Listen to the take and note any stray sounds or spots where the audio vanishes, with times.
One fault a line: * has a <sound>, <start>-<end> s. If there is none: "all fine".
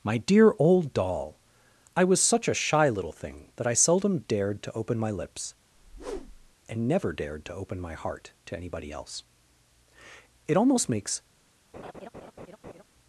* has a whoosh, 5.7-6.6 s
* has a laugh, 11.7-12.8 s